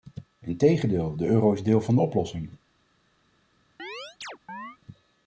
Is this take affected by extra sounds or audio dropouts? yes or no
yes